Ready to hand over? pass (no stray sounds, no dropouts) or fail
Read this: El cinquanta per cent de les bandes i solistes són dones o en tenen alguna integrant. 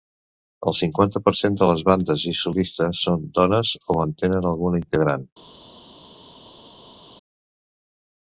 pass